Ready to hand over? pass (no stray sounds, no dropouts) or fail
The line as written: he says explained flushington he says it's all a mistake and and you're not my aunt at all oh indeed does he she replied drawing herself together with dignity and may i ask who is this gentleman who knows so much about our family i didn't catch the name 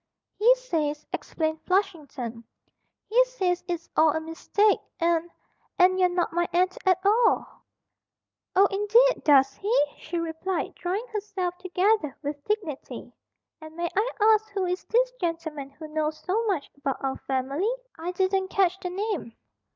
pass